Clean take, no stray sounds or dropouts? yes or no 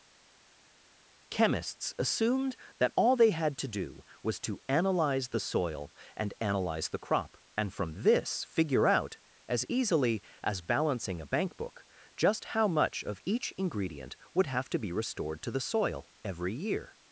yes